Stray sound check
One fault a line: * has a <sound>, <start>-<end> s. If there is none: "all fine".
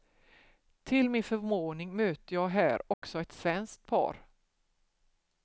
* has a dropout, 2.9-3.0 s